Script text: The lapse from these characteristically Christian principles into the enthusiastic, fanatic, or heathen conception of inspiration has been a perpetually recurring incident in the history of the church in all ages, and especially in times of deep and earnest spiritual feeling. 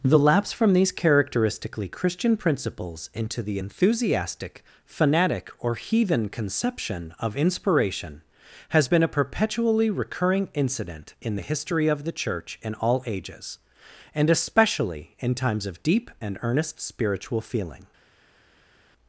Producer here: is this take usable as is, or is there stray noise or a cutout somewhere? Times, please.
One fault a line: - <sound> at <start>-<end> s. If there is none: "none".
none